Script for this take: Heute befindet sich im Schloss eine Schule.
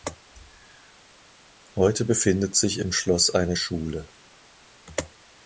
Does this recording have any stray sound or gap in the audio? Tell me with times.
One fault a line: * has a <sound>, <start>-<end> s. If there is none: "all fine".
all fine